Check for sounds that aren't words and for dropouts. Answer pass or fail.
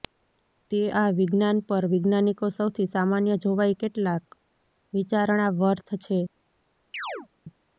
fail